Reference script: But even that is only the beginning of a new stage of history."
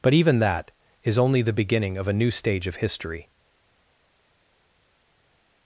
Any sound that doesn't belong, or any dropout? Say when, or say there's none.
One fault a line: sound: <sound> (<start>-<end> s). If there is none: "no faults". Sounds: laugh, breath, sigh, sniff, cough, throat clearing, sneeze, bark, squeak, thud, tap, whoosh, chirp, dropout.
no faults